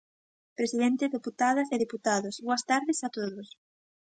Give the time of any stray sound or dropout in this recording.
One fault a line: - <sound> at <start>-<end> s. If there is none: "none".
none